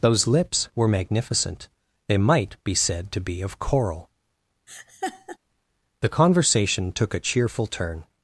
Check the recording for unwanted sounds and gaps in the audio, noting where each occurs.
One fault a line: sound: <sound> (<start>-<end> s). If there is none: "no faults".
sound: laugh (4.7-5.4 s)